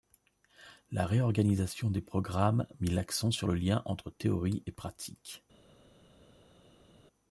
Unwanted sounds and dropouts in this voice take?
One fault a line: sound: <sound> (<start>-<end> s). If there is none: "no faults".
no faults